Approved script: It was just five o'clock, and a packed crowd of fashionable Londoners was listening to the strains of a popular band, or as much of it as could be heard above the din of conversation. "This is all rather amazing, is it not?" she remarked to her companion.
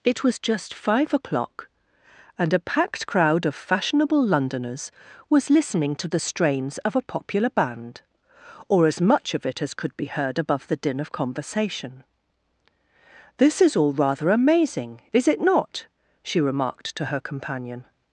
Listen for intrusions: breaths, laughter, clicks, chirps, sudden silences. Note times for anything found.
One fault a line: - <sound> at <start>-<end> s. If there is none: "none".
none